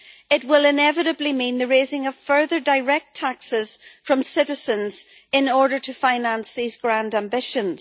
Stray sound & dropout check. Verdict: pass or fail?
pass